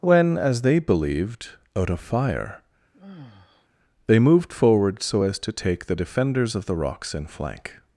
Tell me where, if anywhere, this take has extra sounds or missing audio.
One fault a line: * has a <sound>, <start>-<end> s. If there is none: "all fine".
* has a sigh, 2.9-3.7 s